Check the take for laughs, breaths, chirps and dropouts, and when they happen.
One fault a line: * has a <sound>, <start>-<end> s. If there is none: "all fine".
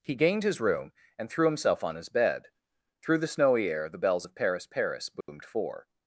* has a dropout, 5.2-5.3 s